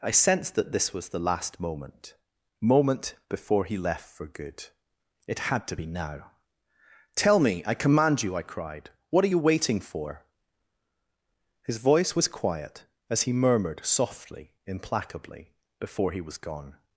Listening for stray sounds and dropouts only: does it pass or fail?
pass